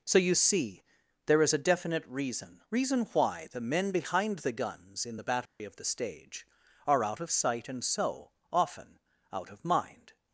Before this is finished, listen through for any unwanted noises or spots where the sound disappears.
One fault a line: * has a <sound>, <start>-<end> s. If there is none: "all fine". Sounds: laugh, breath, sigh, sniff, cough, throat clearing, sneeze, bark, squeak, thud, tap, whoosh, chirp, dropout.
* has a dropout, 5.5-5.6 s